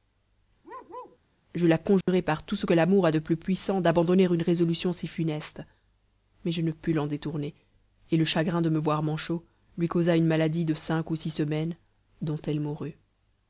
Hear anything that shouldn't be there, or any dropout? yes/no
yes